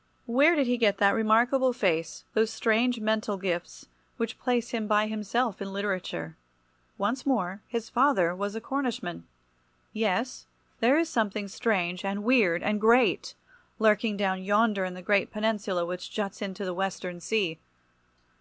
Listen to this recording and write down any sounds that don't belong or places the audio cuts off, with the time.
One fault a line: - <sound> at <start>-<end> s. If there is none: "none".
none